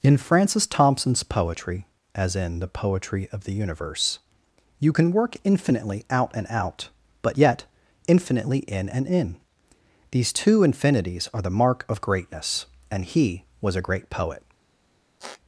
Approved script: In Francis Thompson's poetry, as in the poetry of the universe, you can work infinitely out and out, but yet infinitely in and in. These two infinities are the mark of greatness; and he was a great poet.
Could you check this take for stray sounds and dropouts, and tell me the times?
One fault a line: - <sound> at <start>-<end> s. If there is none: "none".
- squeak at 15.2-15.4 s